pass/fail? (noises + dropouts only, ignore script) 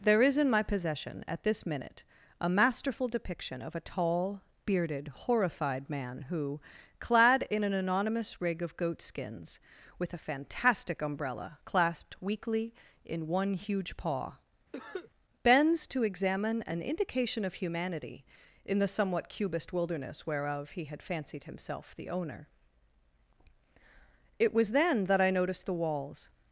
fail